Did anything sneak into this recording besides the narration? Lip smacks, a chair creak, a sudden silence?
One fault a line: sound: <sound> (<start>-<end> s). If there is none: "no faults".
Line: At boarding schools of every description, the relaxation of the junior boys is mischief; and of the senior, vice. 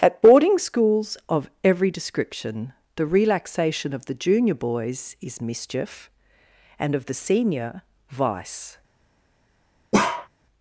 sound: bark (9.9-10.3 s)